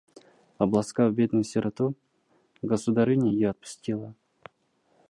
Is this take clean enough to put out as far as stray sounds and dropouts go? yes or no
yes